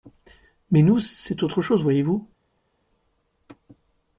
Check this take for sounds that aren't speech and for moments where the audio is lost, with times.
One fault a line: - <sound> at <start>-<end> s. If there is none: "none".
none